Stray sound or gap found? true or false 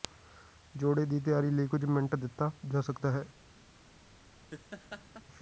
true